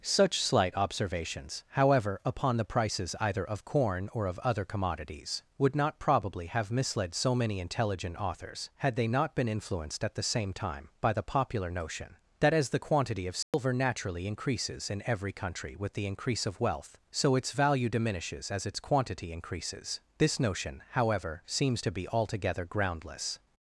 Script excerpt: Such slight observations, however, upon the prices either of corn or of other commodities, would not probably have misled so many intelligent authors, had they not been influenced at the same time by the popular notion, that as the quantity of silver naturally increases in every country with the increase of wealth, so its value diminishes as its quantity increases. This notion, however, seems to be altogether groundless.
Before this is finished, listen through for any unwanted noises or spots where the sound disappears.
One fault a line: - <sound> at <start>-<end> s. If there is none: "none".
- dropout at 13.4-13.5 s